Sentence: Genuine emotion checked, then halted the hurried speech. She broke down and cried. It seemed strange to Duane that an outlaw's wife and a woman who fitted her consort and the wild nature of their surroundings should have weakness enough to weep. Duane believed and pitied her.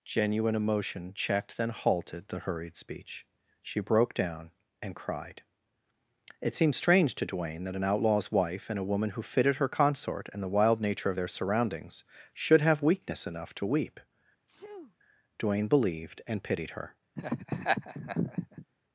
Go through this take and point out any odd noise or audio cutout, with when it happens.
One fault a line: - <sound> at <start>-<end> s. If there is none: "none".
- sneeze at 14.5-15.0 s
- laugh at 17.2-18.7 s